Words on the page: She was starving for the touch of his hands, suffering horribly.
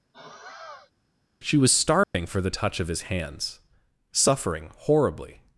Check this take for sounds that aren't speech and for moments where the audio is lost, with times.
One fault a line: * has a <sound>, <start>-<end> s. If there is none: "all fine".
* has a sigh, 0.1-0.9 s
* has a dropout, 2.0-2.1 s